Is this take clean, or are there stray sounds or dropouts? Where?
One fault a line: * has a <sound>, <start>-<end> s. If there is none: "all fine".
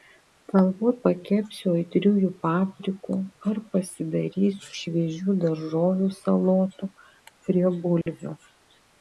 * has a dropout, 8.0-8.1 s